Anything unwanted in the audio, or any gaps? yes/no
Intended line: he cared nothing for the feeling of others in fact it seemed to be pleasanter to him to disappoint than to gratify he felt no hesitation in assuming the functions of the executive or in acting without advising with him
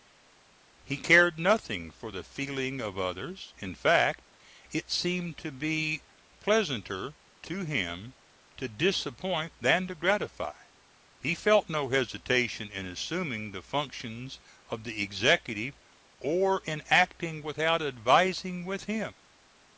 no